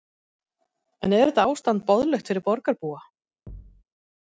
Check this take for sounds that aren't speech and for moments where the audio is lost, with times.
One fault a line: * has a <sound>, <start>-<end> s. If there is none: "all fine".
* has a thud, 3.5-3.8 s